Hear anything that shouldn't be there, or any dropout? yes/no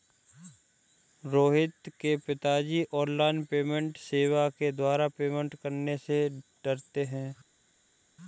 no